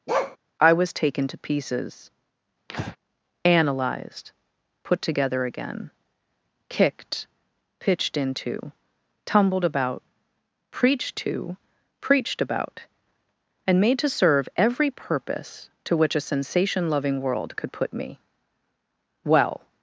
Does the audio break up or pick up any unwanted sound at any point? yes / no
yes